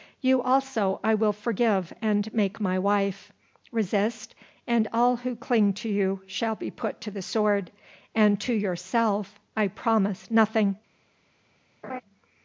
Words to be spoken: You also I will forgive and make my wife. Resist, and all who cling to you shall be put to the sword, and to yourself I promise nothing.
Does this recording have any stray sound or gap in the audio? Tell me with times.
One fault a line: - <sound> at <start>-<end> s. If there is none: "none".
- laugh at 11.8-12.0 s